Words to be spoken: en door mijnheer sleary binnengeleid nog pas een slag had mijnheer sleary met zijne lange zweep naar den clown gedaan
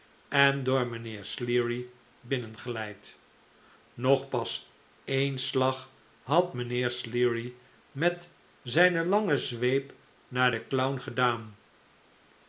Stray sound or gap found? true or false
false